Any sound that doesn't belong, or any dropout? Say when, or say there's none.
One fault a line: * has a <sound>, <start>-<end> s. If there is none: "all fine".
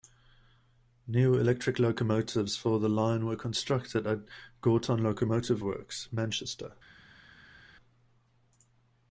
all fine